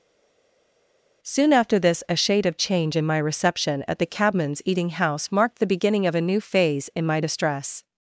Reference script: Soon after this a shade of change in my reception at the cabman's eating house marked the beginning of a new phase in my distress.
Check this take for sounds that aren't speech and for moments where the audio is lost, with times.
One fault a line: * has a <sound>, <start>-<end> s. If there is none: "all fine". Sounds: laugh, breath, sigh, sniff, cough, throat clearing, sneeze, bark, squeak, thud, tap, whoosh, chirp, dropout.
all fine